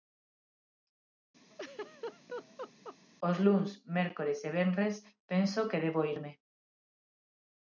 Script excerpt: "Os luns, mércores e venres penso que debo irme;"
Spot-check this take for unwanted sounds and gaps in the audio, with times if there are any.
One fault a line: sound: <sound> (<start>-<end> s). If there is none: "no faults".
sound: laugh (1.5-3.0 s)